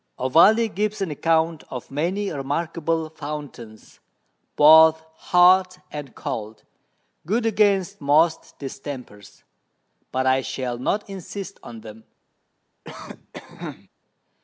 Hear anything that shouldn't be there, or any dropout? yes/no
yes